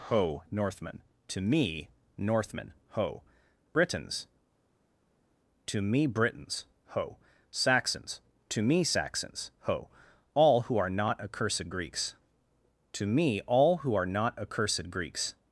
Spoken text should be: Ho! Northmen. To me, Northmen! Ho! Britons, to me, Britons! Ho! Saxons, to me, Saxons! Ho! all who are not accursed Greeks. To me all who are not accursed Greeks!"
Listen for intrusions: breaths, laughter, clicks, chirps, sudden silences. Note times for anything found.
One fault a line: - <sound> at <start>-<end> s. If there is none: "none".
none